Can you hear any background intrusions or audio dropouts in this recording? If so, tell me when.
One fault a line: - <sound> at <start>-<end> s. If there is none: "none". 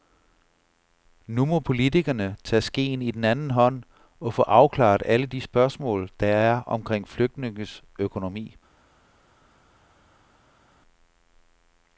none